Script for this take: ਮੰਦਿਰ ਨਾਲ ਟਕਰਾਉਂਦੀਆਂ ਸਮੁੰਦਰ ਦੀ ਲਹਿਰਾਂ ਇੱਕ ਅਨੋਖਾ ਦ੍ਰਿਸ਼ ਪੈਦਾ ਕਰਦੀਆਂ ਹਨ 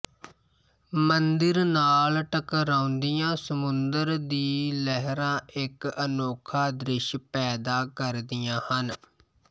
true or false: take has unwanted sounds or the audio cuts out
false